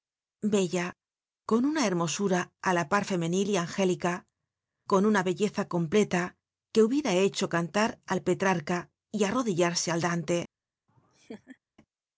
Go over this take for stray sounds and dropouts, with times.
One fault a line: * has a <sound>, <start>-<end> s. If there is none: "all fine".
* has a laugh, 10.9-11.6 s